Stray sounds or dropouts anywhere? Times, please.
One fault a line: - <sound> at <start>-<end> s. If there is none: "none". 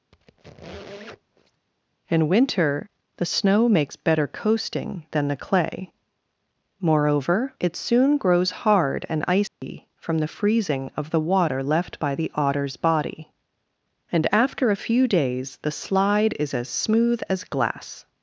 - squeak at 0.1-1.7 s
- dropout at 9.5-9.6 s